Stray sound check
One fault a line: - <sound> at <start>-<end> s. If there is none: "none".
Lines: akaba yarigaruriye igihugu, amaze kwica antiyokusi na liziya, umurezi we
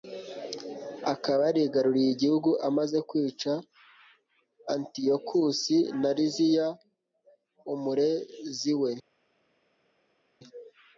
none